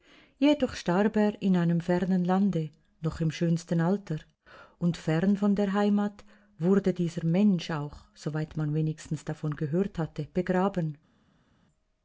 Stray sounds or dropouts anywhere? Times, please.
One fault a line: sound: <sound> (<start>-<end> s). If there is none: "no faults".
no faults